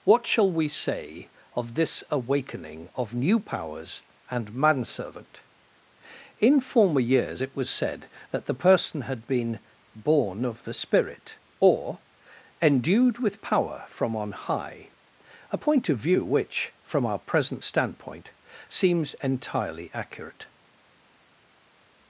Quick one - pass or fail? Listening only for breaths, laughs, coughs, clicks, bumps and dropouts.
pass